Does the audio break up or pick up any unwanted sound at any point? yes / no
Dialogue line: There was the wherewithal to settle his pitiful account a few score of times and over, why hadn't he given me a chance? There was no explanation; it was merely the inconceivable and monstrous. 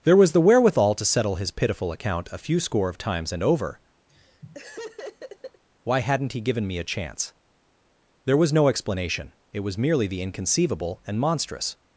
yes